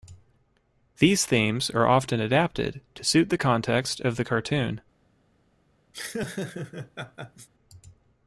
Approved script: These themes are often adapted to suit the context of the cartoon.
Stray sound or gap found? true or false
true